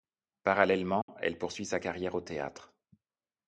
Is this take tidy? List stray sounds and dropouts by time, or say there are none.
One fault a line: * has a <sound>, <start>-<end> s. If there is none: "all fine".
* has a dropout, 1.0-1.1 s